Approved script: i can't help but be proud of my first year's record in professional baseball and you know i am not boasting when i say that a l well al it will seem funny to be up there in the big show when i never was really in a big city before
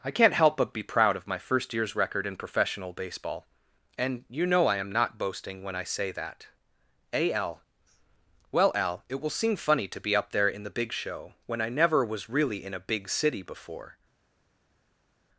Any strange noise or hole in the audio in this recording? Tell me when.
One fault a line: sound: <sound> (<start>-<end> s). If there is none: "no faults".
no faults